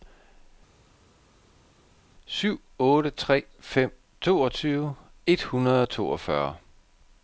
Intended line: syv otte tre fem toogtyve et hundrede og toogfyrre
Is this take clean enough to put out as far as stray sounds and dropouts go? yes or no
yes